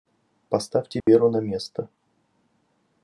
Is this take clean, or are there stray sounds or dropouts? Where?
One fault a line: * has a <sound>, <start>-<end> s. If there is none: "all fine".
* has a dropout, 1.0-1.1 s